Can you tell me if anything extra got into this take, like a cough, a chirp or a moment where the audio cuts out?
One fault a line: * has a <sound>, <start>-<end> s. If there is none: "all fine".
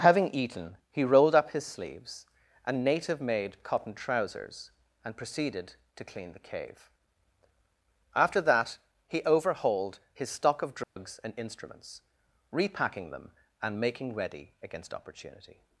* has a dropout, 10.8-11.0 s